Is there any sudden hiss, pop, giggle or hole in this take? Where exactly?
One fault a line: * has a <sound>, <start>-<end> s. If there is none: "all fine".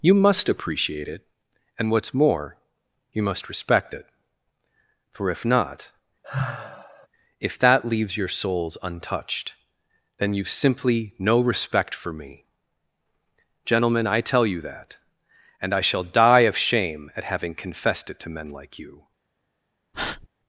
* has a sigh, 6.2-7.1 s
* has a breath, 19.9-20.3 s